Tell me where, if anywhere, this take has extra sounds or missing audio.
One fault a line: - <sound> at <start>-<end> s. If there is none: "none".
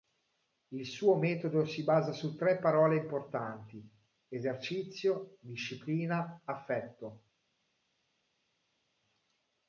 none